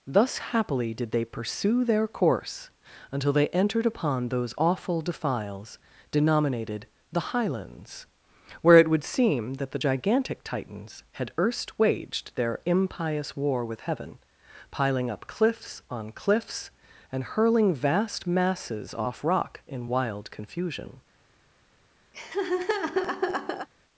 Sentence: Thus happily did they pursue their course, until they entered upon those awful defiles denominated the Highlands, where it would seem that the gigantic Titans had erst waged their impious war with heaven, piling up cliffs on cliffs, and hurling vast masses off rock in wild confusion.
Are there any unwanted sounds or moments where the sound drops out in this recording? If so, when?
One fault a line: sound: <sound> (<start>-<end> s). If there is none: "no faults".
sound: laugh (22.1-23.7 s)